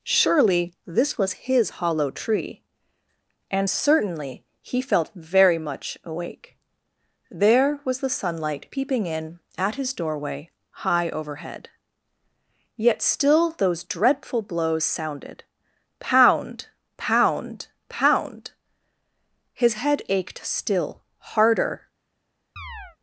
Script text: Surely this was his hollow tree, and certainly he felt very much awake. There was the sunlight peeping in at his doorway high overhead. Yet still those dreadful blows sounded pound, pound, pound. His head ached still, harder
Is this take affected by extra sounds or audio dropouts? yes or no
yes